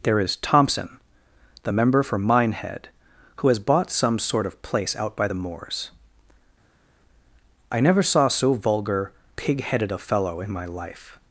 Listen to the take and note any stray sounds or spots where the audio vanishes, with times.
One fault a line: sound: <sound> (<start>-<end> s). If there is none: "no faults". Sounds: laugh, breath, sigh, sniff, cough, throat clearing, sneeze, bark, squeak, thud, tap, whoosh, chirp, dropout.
no faults